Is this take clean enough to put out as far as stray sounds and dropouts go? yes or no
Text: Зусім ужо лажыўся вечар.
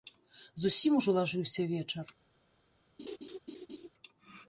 no